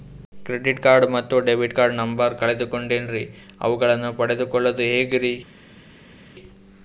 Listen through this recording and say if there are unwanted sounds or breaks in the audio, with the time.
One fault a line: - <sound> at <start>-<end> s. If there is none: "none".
none